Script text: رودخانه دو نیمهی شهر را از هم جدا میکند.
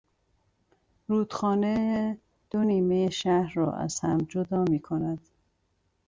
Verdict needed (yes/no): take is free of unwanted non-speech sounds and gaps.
yes